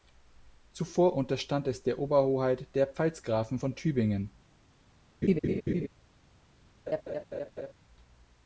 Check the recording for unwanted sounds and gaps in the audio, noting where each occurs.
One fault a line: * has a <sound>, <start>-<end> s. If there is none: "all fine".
* has a laugh, 5.2-5.9 s
* has a laugh, 6.9-7.7 s